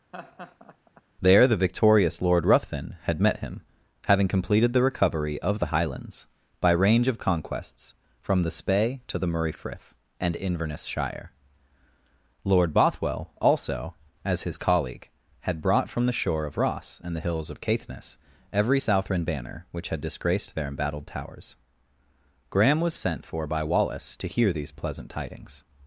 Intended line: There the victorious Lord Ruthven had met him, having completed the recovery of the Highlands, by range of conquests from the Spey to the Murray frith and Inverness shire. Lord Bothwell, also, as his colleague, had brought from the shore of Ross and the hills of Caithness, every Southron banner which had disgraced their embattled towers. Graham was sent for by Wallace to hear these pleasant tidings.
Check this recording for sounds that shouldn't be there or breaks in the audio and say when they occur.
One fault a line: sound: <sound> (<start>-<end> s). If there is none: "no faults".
sound: laugh (0.1-1.0 s)